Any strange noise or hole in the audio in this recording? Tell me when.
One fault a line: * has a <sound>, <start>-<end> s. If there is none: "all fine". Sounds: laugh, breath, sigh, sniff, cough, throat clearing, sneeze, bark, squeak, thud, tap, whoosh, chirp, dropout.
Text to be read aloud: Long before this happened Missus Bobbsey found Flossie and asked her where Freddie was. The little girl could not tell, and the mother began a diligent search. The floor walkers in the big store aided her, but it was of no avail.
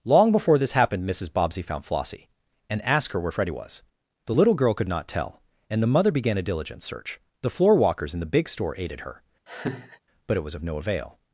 * has a laugh, 9.5-10.0 s